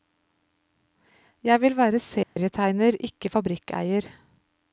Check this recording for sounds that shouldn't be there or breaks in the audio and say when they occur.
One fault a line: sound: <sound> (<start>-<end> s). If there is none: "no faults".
sound: dropout (2.2-2.4 s)